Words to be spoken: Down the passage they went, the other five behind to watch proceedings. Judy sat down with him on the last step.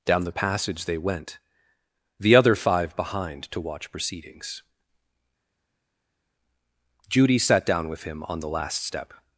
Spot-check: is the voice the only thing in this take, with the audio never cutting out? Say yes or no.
yes